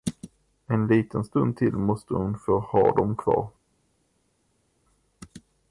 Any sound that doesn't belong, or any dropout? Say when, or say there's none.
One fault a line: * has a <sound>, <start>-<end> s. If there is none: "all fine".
all fine